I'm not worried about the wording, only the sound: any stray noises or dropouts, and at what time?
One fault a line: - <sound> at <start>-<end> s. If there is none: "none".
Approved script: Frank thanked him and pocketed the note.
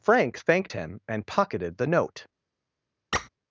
- squeak at 3.1-3.3 s